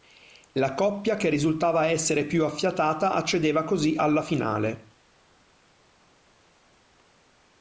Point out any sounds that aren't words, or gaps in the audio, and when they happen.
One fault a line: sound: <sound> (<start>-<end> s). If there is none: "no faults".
no faults